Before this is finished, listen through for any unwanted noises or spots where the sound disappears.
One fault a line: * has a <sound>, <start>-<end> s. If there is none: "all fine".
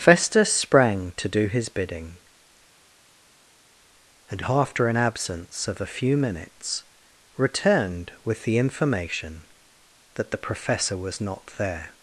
all fine